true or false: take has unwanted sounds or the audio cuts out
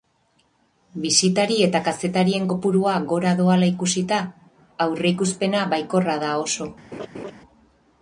true